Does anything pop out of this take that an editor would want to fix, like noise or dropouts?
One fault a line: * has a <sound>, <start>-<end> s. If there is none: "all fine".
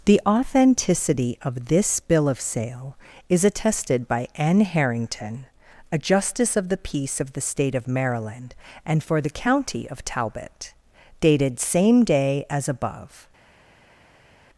all fine